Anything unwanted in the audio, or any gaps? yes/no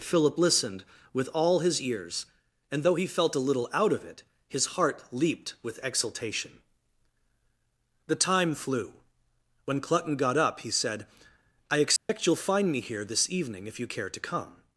yes